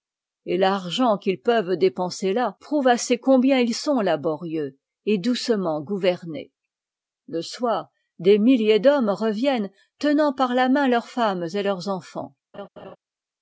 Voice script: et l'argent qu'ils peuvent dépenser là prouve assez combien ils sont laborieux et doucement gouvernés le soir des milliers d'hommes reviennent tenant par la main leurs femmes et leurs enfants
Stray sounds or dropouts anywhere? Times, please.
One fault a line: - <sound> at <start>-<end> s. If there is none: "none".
- laugh at 12.5-13.0 s